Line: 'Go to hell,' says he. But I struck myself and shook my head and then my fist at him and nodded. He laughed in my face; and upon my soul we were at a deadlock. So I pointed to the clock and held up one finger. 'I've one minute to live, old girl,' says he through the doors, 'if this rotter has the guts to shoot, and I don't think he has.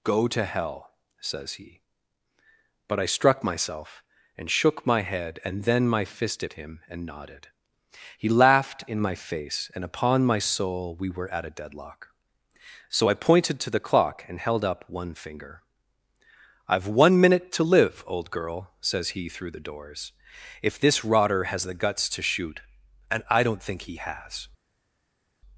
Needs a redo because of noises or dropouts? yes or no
no